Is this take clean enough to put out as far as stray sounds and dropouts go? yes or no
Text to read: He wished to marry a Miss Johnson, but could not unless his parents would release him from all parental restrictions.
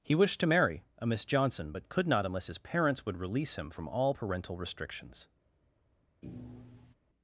no